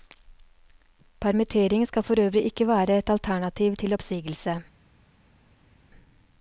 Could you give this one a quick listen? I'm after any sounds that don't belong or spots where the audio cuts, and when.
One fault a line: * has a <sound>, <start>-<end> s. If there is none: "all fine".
all fine